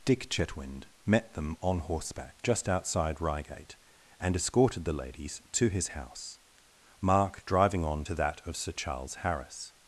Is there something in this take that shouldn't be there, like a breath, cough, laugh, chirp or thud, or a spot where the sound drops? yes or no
no